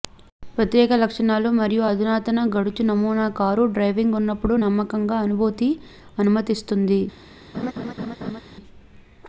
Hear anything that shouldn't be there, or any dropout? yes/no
yes